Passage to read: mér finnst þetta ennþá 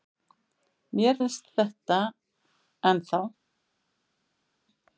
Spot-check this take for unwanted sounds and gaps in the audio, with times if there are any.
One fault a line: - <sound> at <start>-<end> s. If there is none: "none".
none